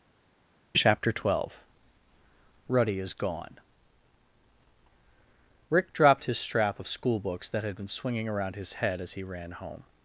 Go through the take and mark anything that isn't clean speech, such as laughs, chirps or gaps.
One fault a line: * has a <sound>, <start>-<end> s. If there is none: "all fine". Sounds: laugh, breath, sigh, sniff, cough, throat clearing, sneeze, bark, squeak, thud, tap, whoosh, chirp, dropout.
all fine